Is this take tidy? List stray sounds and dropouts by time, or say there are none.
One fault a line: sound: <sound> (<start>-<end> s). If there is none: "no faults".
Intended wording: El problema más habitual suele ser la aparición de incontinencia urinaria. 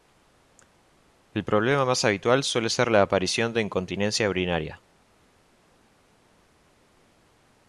no faults